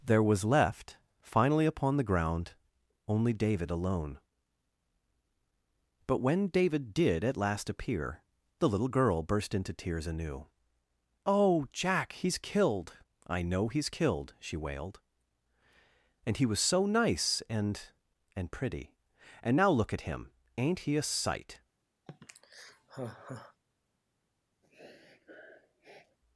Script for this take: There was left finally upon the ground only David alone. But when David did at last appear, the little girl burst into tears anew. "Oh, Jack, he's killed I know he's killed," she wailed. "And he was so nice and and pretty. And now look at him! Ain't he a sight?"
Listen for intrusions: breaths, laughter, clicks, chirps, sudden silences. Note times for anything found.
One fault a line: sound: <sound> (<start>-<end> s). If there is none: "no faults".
sound: sigh (22.1-23.6 s)
sound: sniff (24.6-26.2 s)